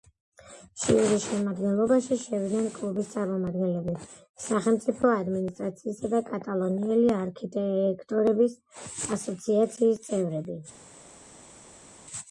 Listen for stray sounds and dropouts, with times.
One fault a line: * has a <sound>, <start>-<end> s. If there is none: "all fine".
all fine